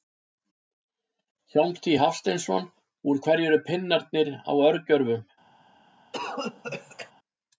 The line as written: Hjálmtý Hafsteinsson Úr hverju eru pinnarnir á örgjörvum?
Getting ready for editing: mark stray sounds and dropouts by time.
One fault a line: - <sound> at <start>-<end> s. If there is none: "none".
- cough at 6.1-7.1 s